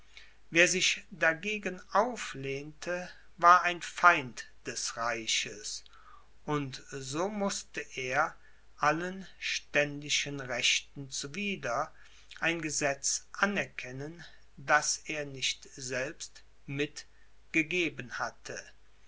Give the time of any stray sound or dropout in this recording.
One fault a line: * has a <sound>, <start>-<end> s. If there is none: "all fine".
all fine